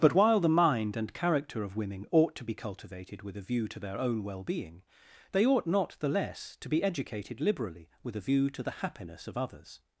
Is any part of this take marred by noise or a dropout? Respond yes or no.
no